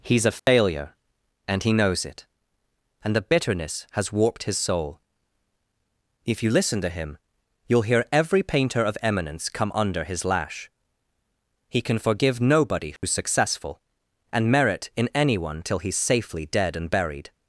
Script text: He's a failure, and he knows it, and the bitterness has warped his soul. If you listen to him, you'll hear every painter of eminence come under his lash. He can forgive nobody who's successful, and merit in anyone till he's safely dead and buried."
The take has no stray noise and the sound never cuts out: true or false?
false